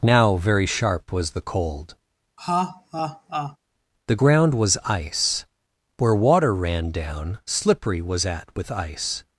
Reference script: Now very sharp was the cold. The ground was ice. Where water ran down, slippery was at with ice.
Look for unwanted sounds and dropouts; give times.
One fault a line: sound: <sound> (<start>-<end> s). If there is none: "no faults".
sound: laugh (2.4-3.6 s)